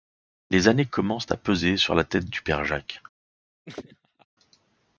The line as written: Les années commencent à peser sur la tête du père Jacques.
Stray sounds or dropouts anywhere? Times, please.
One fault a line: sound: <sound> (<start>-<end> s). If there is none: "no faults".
sound: laugh (3.7-4.3 s)